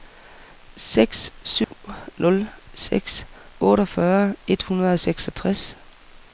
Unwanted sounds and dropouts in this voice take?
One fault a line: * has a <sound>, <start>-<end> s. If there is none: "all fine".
* has a dropout, 1.6-1.7 s